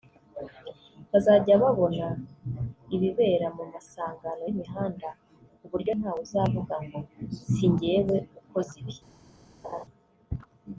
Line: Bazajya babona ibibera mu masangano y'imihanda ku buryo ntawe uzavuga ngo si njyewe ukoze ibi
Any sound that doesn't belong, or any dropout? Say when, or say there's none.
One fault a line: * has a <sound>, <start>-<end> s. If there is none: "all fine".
* has a laugh, 9.6-9.8 s